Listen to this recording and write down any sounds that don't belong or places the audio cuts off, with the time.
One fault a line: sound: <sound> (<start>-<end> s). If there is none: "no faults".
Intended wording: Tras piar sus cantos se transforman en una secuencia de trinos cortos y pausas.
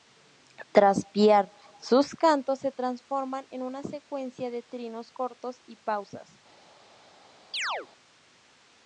sound: chirp (7.5-7.9 s)